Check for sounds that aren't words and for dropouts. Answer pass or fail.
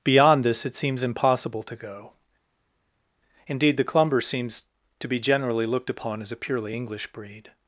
pass